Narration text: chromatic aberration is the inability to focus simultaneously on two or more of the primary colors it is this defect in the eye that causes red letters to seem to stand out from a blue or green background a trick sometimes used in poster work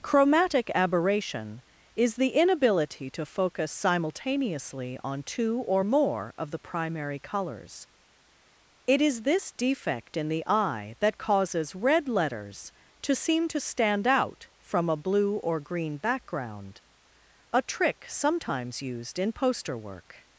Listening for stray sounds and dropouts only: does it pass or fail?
pass